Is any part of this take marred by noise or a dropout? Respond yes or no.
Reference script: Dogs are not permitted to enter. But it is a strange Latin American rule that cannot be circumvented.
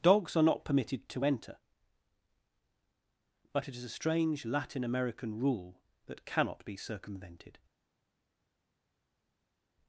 no